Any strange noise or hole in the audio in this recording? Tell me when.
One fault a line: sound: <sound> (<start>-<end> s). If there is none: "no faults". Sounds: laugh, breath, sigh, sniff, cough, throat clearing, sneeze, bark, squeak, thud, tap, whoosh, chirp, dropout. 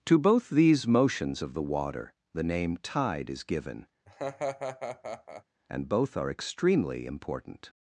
sound: laugh (4.1-5.4 s)